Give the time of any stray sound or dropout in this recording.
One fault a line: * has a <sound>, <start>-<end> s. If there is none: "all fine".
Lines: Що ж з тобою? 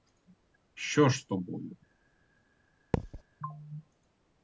* has a thud, 2.9-3.2 s